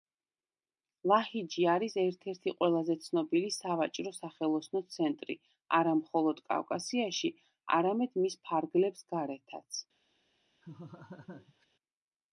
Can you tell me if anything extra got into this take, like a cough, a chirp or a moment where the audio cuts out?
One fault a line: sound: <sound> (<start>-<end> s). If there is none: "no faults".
sound: laugh (10.6-11.7 s)